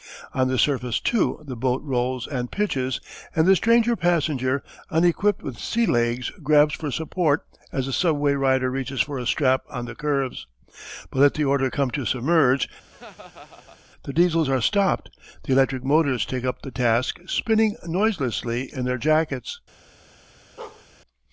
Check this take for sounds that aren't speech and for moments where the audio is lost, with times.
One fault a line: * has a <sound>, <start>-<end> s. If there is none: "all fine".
* has a laugh, 12.9-13.8 s
* has a bark, 20.6-20.9 s